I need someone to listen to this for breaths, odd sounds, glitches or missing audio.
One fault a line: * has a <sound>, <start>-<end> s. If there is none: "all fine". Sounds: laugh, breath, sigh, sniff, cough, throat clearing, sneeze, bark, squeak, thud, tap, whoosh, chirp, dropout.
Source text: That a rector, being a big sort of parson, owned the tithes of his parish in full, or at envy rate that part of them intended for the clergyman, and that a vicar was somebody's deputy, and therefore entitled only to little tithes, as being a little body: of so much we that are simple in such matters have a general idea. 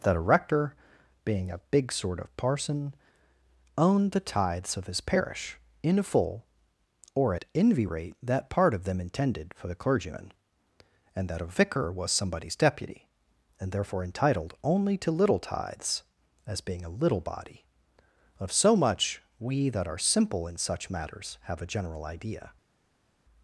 all fine